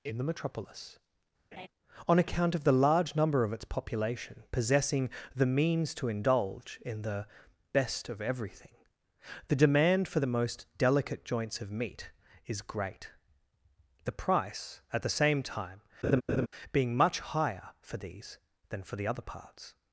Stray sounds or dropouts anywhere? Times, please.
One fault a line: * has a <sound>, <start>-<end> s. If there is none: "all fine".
* has a laugh, 1.5-1.7 s
* has a laugh, 16.0-16.5 s